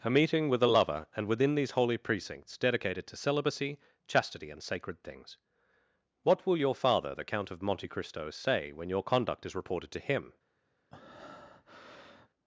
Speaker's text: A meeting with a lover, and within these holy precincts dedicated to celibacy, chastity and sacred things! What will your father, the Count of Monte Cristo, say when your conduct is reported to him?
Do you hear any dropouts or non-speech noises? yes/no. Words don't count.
yes